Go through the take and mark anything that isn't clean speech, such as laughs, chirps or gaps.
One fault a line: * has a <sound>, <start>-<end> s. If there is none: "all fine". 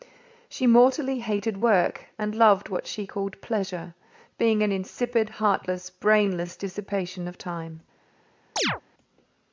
* has a chirp, 8.6-8.8 s